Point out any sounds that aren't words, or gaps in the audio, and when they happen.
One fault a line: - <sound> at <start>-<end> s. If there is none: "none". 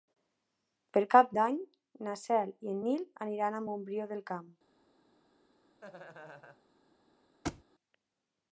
- laugh at 5.8-6.6 s
- thud at 7.4-7.6 s